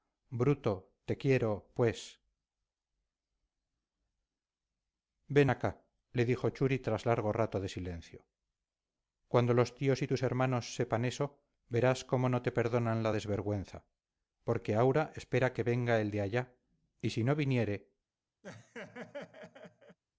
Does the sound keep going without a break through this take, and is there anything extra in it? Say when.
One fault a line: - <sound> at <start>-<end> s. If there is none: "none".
- laugh at 18.4-20.0 s